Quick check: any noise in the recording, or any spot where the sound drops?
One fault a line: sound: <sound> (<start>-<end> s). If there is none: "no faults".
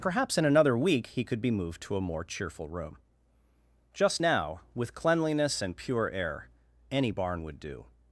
no faults